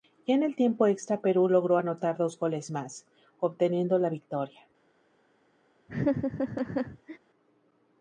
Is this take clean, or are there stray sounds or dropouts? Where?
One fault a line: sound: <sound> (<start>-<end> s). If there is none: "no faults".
sound: laugh (5.9-7.2 s)